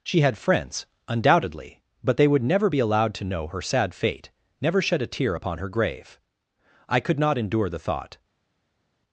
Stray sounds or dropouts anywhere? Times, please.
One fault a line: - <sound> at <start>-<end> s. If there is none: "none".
none